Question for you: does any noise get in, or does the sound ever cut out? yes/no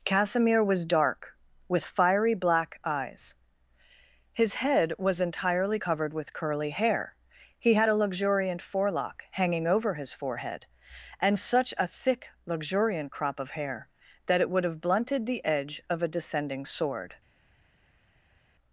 no